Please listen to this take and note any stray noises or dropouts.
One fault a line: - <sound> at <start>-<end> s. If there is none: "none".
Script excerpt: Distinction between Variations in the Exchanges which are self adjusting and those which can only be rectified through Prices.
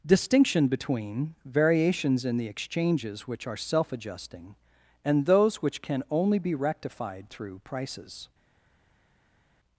none